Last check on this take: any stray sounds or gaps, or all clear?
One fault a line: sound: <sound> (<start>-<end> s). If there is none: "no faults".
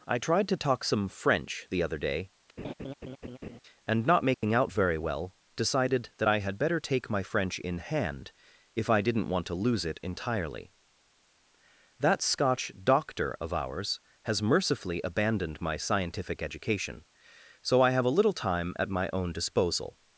sound: laugh (2.6-3.6 s)
sound: dropout (4.3-4.4 s)